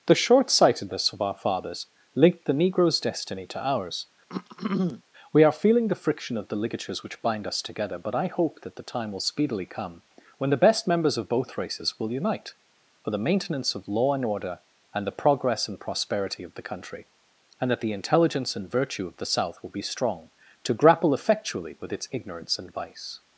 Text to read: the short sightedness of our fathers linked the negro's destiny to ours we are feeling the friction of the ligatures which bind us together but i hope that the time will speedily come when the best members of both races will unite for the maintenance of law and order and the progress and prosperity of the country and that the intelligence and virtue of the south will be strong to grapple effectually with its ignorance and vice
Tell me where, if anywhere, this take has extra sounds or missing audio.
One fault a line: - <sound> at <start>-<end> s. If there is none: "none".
- throat clearing at 4.3-5.0 s